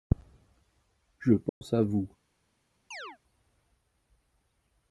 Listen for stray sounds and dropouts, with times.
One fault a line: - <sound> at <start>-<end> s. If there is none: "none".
- dropout at 1.5-1.6 s
- chirp at 2.9-3.2 s